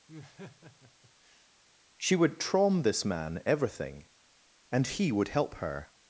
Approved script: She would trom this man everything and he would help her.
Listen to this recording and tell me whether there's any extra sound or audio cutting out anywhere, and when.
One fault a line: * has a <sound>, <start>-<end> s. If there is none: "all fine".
* has a laugh, 0.1-1.5 s